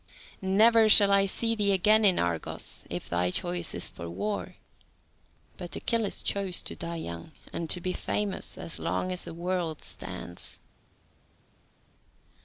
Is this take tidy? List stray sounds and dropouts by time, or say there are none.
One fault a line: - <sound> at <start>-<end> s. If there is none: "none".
none